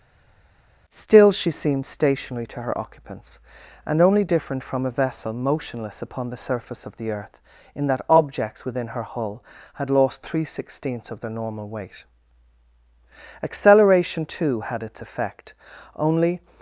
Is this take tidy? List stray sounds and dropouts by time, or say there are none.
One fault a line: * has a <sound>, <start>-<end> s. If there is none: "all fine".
all fine